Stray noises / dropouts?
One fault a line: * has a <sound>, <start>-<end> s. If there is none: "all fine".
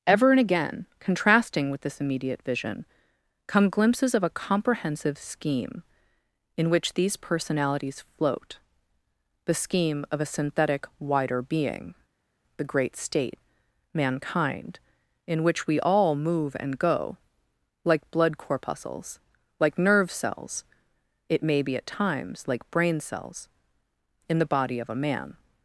all fine